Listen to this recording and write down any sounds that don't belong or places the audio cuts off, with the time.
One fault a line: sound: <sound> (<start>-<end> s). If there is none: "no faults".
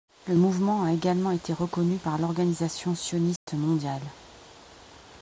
sound: dropout (3.4-3.5 s)